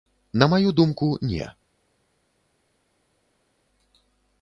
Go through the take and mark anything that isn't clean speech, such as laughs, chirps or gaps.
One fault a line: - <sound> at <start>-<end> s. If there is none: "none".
none